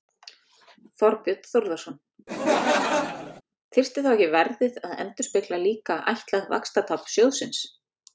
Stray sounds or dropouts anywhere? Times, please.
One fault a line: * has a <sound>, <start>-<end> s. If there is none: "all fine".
* has a laugh, 2.3-3.4 s